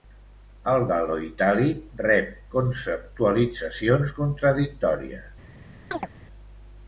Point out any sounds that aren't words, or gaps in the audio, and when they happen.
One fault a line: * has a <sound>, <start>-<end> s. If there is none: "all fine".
* has a chirp, 5.9-6.1 s